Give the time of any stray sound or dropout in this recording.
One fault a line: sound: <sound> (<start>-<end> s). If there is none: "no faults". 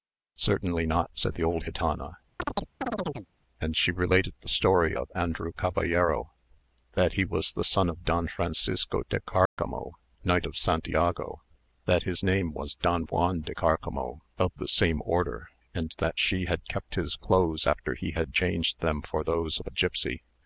sound: chirp (2.4-3.3 s)
sound: dropout (9.5-9.6 s)